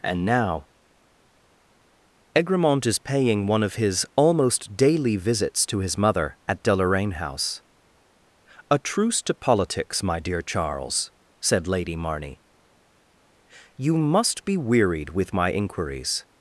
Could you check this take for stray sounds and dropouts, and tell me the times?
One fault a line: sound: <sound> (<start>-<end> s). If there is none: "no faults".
no faults